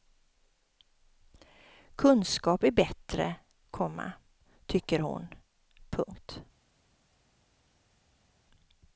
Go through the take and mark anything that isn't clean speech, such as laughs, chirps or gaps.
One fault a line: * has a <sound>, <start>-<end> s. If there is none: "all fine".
all fine